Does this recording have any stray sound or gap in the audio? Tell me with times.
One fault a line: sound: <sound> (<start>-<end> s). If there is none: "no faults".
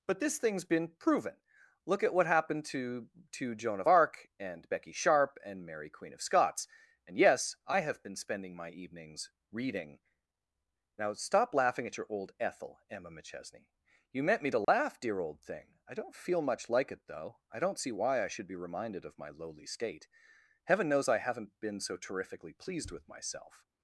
sound: dropout (14.6-14.7 s)